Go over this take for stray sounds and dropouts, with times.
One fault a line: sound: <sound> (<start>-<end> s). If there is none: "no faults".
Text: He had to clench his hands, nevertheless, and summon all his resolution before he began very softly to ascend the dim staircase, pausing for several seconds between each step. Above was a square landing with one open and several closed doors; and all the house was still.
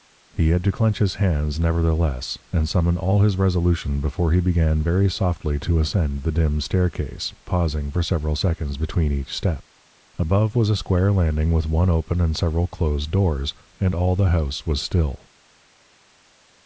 no faults